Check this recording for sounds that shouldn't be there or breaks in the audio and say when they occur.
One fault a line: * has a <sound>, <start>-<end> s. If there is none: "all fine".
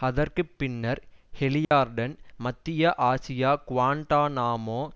* has a dropout, 1.6-1.7 s